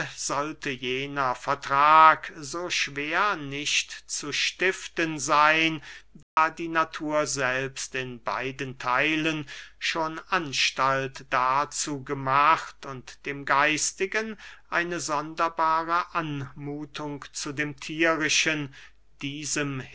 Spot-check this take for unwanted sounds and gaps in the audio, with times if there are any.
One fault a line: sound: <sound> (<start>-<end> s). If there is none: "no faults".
sound: dropout (6.2-6.4 s)